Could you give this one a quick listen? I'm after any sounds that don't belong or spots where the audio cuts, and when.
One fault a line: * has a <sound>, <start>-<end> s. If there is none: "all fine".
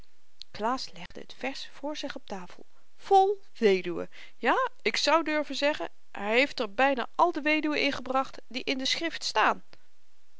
* has a dropout, 1.1-1.1 s